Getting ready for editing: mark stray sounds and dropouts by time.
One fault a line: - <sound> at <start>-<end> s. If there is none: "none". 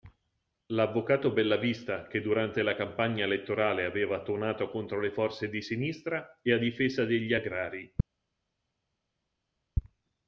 none